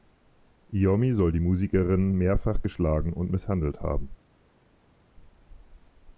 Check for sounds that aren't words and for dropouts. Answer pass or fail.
pass